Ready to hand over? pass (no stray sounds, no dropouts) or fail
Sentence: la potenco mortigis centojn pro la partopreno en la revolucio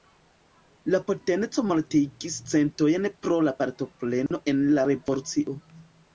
fail